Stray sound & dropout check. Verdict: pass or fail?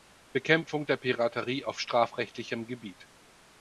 pass